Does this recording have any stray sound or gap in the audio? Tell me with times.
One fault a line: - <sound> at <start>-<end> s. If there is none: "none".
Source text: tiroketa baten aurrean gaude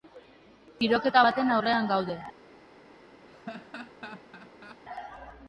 - laugh at 3.3-4.8 s